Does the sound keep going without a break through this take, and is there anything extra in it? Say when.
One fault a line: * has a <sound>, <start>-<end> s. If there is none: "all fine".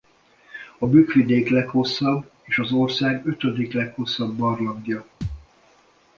* has a thud, 5.2-5.5 s